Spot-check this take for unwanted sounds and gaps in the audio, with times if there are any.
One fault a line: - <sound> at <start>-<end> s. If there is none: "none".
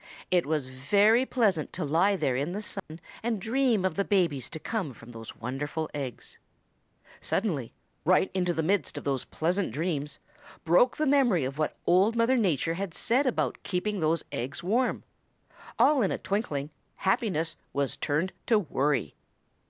- dropout at 2.8-2.9 s